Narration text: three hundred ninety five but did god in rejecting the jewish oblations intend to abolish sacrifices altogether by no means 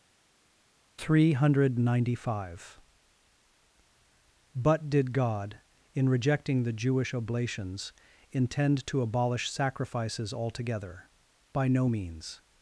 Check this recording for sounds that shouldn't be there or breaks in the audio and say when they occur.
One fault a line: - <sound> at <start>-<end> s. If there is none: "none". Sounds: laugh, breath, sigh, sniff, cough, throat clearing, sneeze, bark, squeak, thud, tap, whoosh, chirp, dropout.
none